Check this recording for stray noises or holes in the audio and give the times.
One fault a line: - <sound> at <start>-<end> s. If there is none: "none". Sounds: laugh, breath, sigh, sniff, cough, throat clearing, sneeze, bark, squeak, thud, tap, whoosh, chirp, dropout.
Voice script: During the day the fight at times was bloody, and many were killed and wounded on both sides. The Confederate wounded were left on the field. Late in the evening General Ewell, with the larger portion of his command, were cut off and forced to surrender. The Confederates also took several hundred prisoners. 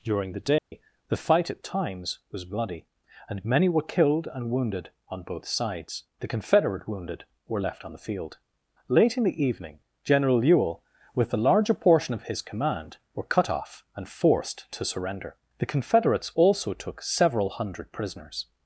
- dropout at 0.6-0.7 s